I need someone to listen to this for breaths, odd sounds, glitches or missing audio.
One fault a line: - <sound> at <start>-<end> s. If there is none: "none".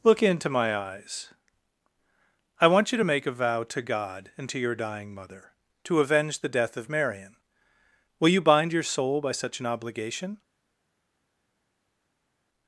none